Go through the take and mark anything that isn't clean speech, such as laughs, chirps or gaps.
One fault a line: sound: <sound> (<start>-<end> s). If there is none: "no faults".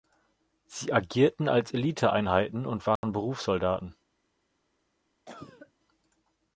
sound: dropout (3.0-3.0 s)
sound: cough (5.3-5.7 s)